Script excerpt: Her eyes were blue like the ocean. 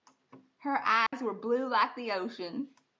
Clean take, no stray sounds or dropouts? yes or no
no